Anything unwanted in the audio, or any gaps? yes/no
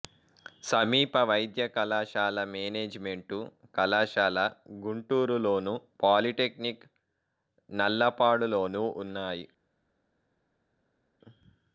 no